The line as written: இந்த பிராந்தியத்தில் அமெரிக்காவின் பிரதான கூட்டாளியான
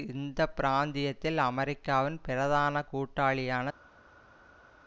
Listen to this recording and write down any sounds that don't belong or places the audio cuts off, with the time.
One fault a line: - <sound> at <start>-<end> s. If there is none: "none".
none